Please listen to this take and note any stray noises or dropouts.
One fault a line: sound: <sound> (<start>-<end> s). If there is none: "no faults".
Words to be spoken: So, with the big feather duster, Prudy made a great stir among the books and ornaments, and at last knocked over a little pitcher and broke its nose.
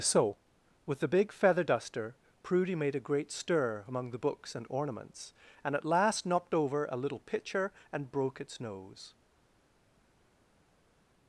no faults